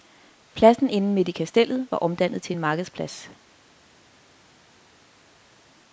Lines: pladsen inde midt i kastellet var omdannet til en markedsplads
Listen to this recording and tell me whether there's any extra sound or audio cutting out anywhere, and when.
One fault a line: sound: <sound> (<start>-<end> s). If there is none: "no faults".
no faults